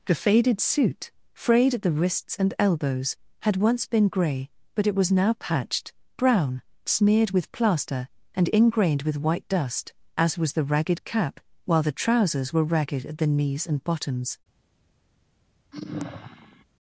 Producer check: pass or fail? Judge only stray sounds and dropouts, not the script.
fail